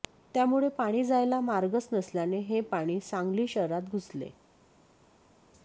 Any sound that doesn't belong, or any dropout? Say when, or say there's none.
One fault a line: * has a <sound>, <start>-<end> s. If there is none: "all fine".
all fine